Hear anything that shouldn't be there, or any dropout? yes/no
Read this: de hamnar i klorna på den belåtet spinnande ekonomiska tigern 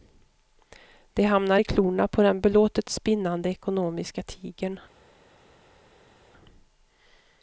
no